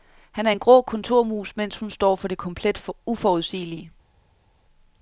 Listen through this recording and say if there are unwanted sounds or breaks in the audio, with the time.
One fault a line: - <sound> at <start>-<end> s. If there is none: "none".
none